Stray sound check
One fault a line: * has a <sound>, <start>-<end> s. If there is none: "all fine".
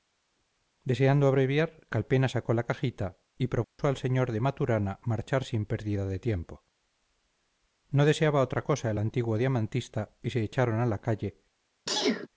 * has a dropout, 3.6-3.8 s
* has a sneeze, 11.9-12.3 s